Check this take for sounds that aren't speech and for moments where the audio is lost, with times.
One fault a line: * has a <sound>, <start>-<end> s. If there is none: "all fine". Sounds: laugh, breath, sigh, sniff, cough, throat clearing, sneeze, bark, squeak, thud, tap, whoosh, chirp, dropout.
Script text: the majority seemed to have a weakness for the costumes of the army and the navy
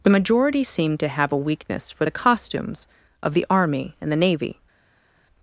all fine